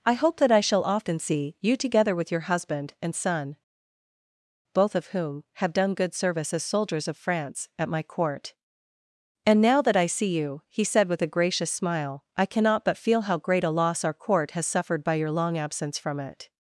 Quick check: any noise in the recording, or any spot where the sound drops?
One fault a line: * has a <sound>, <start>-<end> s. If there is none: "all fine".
all fine